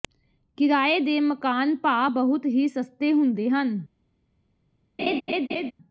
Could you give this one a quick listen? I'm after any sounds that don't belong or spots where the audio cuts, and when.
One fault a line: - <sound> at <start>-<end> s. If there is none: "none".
- laugh at 5.0-5.7 s